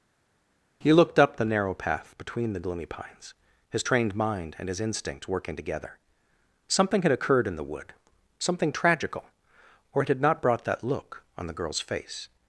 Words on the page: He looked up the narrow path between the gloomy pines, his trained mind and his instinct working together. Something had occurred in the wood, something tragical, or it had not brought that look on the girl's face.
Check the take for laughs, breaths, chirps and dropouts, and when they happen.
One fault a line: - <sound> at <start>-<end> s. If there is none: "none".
none